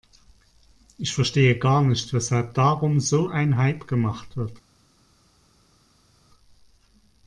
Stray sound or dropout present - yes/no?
no